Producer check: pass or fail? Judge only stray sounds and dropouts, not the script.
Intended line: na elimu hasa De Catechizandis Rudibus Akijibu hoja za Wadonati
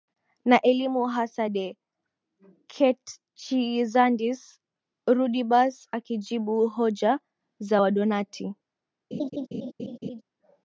fail